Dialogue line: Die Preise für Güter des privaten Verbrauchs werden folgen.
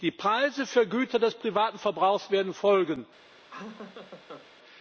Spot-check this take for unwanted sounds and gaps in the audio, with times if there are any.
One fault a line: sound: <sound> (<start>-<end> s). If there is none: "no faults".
sound: laugh (3.5-4.5 s)